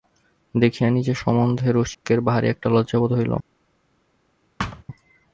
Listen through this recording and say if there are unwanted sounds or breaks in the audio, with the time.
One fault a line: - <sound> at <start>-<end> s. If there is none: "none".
- dropout at 1.9-2.0 s
- thud at 4.6-4.8 s